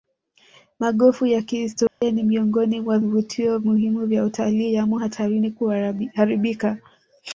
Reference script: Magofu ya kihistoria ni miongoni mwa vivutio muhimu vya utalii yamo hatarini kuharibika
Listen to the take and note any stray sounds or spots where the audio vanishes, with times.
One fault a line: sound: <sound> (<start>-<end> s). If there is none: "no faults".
sound: dropout (1.9-2.0 s)